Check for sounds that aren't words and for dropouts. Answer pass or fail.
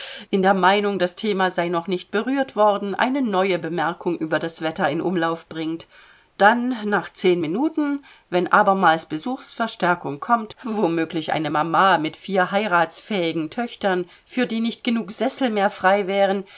pass